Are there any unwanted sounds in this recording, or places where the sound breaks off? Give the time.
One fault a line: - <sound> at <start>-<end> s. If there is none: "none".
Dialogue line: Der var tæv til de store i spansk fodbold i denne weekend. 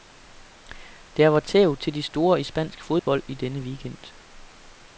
- dropout at 3.0-3.1 s